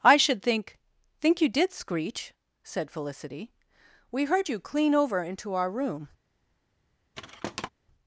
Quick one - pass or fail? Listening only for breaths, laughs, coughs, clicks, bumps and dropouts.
fail